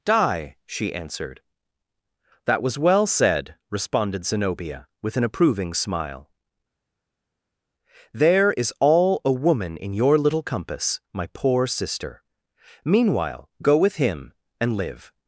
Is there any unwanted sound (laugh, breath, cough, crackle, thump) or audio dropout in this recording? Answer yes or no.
no